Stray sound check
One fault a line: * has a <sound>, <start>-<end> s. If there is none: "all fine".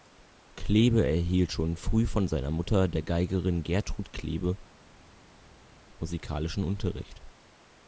all fine